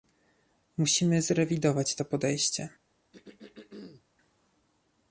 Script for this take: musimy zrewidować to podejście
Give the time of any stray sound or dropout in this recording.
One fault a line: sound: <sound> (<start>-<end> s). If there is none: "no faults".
sound: throat clearing (3.1-4.0 s)